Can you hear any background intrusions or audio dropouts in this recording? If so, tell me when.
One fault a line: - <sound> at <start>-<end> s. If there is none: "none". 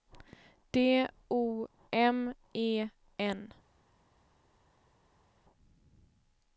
none